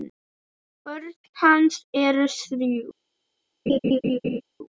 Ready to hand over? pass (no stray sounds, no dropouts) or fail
fail